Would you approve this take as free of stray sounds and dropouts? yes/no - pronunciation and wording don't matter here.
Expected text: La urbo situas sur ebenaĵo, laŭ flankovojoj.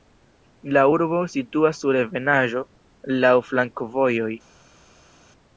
yes